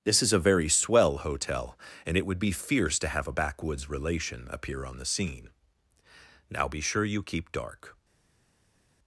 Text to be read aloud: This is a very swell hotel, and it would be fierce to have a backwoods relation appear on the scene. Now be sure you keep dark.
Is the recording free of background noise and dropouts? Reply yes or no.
yes